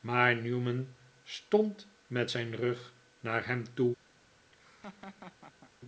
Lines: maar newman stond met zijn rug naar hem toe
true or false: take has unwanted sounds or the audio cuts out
true